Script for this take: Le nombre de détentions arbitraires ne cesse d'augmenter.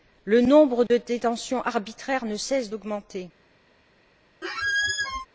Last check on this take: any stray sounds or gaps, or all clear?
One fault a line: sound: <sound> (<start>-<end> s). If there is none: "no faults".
sound: dropout (0.9-0.9 s)
sound: squeak (4.4-5.3 s)